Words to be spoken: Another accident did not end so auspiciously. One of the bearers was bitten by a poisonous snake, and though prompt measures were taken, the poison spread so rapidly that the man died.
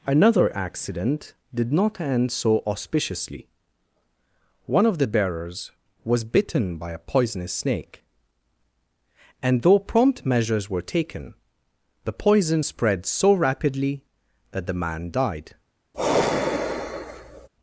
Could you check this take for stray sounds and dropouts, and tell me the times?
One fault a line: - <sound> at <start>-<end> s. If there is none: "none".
- sigh at 15.9-17.5 s